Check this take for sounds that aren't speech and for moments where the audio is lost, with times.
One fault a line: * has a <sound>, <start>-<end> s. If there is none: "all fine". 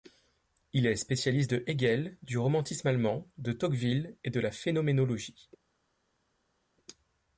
all fine